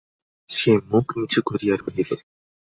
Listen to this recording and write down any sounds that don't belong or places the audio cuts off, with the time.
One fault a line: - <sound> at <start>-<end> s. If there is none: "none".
- dropout at 1.8-1.9 s